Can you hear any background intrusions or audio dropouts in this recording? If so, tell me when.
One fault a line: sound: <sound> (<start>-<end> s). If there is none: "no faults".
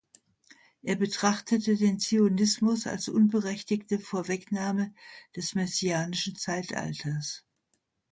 no faults